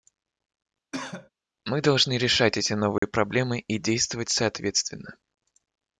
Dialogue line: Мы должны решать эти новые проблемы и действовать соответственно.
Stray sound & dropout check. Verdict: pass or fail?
fail